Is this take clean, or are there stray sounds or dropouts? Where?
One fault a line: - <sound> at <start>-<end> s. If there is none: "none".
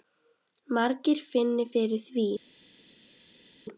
none